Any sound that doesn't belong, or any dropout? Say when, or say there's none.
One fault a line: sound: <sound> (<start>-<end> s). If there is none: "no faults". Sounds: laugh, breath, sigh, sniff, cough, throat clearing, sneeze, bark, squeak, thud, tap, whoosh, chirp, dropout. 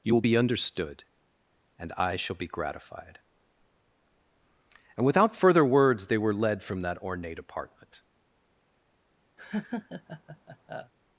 sound: laugh (9.4-10.9 s)